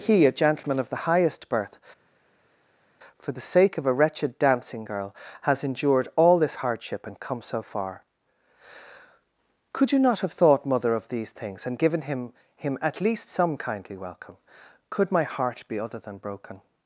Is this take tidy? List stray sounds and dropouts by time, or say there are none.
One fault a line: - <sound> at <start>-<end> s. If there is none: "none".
none